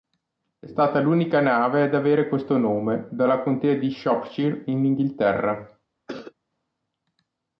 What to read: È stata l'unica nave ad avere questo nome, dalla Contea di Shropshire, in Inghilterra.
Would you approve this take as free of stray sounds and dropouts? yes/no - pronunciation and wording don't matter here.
no